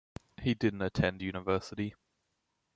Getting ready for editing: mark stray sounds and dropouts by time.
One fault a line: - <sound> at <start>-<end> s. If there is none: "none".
none